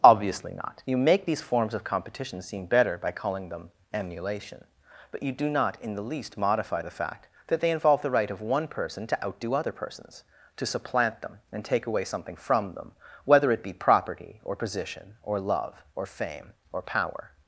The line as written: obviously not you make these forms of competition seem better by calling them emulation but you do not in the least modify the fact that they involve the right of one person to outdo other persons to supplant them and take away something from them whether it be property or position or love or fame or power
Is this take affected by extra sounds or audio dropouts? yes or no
no